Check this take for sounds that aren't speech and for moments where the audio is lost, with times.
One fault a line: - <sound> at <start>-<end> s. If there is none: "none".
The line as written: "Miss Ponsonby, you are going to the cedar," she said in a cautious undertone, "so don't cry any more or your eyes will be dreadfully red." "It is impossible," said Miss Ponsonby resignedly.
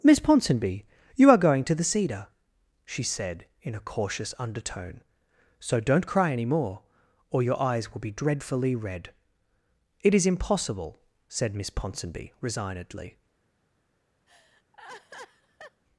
- laugh at 14.3-15.8 s